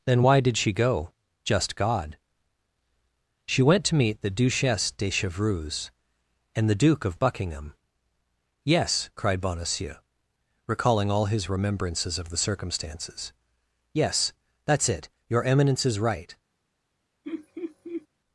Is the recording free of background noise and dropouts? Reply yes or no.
no